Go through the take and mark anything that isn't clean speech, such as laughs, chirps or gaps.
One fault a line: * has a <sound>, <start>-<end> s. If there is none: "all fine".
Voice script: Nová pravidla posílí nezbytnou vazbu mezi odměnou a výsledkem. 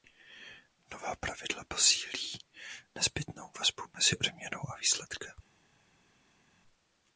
all fine